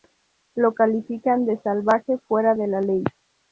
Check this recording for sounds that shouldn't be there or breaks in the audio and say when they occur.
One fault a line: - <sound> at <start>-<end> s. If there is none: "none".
none